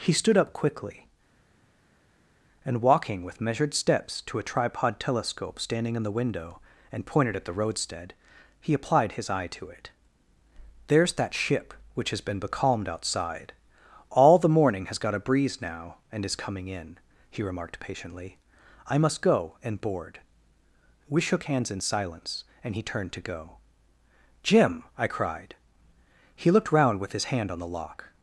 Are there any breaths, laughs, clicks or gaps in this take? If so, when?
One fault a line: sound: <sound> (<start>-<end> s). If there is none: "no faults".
no faults